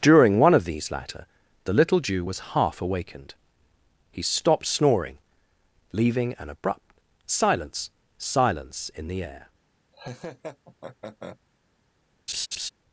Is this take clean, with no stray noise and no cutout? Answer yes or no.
no